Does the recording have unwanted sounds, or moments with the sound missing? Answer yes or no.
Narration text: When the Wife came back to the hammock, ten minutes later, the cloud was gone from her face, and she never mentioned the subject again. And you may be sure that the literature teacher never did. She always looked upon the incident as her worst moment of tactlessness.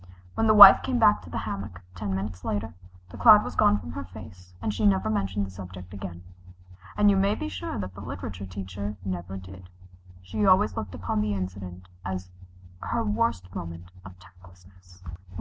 no